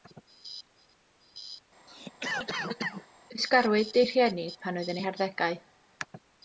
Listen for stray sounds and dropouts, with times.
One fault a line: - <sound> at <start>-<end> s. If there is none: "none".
- cough at 1.9-3.1 s